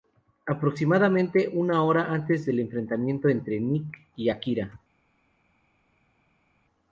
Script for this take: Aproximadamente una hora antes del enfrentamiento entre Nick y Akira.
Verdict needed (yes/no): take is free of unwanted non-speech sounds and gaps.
yes